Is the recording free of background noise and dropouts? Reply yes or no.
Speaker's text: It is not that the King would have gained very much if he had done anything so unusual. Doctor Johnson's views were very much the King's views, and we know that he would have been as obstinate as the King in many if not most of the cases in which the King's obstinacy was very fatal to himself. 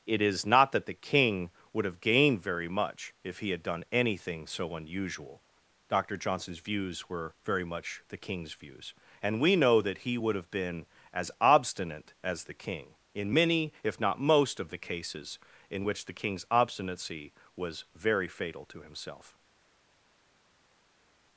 yes